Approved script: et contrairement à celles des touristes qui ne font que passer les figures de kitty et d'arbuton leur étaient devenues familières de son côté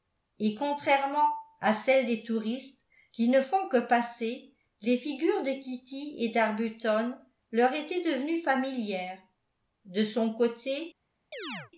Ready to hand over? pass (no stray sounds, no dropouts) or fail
fail